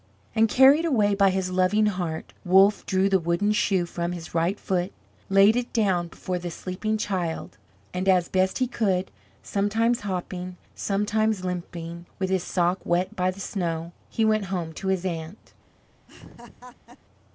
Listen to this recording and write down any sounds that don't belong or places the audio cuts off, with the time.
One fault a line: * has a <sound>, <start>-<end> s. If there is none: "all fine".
* has a laugh, 16.1-17.0 s